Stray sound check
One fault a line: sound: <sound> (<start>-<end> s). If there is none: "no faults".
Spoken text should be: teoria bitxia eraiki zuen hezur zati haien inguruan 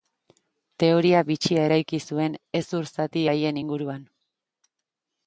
no faults